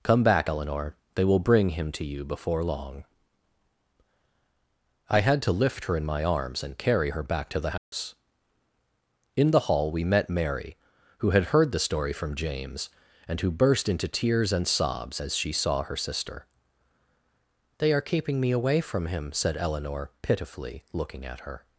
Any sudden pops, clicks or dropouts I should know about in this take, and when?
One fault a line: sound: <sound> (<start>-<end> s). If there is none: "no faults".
sound: dropout (7.8-7.9 s)